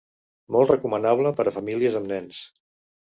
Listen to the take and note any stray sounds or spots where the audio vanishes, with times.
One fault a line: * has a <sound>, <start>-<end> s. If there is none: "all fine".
all fine